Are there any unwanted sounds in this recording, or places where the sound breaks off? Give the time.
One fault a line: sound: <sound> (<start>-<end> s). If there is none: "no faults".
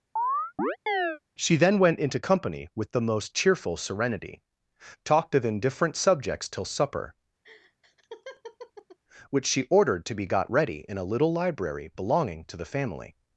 sound: chirp (0.2-1.2 s)
sound: laugh (7.4-9.0 s)